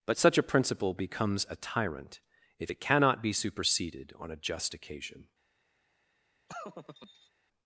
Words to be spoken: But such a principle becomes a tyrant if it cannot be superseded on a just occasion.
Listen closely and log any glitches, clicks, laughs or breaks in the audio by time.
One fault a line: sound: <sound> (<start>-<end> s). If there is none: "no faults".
sound: laugh (6.5-7.3 s)